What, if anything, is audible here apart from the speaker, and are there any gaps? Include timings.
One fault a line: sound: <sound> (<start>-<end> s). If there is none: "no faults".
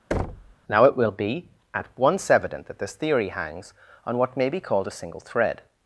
sound: thud (0.1-0.6 s)